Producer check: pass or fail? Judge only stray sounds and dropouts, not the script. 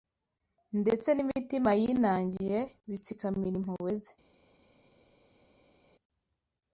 pass